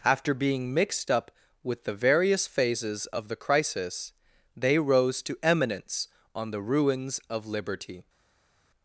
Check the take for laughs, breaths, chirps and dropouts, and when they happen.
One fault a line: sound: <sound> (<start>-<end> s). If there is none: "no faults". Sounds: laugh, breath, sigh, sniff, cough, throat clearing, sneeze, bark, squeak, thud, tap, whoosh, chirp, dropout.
no faults